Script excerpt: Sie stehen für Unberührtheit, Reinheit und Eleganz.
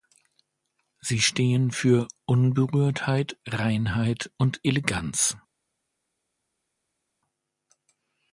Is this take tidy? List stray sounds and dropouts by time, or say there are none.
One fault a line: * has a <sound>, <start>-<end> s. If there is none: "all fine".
all fine